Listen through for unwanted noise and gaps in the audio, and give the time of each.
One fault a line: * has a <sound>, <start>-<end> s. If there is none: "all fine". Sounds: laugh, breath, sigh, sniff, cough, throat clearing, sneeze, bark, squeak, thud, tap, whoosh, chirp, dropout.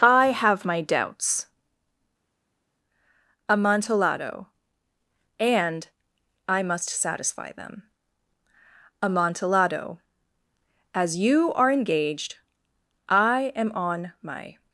all fine